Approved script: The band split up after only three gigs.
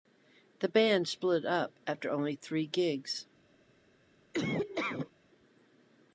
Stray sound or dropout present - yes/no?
yes